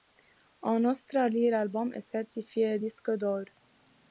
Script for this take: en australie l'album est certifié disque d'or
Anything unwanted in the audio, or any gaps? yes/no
no